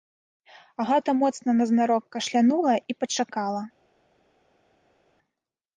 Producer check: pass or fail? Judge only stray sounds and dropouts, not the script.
pass